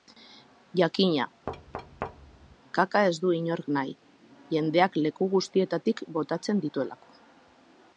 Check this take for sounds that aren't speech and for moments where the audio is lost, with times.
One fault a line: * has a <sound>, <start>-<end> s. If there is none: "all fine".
* has a thud, 1.5-2.6 s